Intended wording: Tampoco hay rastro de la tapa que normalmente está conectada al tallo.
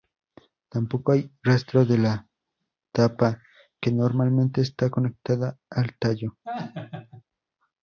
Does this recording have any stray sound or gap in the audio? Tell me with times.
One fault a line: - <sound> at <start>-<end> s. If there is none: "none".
- laugh at 6.4-7.2 s